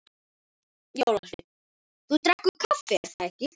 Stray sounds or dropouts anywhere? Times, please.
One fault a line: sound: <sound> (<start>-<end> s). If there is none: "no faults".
no faults